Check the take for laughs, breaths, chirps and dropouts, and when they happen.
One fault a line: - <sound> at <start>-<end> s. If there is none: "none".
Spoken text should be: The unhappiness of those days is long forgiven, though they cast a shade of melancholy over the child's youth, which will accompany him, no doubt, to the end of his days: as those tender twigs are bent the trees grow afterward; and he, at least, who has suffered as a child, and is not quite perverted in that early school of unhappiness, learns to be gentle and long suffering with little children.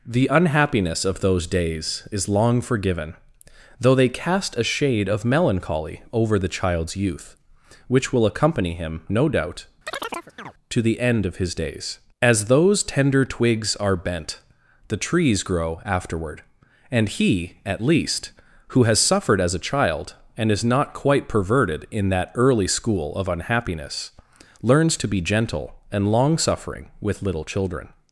- chirp at 9.9-10.5 s